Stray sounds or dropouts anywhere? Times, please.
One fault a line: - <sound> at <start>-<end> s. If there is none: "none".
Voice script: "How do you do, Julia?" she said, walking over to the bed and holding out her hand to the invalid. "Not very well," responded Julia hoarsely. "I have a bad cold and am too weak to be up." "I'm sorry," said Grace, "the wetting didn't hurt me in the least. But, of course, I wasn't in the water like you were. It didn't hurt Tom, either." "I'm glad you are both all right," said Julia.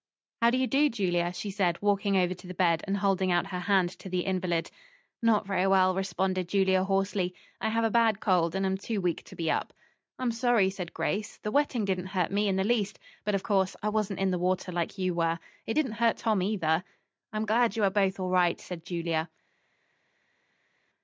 none